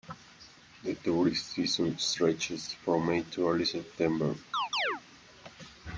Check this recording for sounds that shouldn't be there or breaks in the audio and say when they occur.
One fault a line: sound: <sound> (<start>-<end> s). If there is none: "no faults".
sound: chirp (4.5-5.0 s)